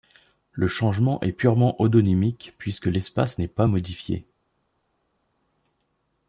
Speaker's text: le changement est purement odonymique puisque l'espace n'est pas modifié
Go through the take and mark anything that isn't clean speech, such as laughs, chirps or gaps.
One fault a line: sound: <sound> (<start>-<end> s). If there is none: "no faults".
no faults